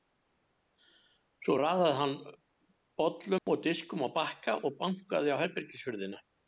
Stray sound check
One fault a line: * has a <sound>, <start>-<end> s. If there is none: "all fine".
* has a dropout, 3.4-3.5 s